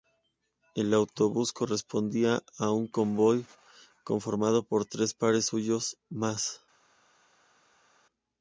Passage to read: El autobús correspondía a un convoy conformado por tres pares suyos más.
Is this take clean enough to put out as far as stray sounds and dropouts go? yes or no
yes